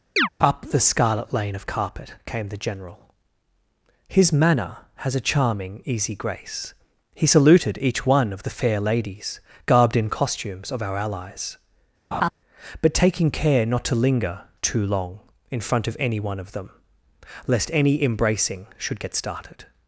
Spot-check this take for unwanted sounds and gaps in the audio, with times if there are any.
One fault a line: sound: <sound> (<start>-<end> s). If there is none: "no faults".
sound: chirp (0.2-0.3 s)
sound: laugh (12.1-12.3 s)